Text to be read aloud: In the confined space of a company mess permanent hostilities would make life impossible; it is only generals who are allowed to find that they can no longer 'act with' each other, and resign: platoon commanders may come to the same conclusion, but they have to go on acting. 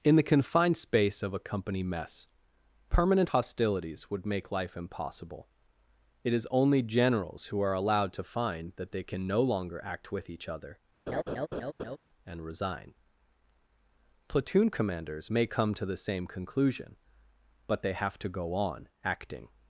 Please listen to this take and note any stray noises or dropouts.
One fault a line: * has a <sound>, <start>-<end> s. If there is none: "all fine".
* has a laugh, 11.1-12.0 s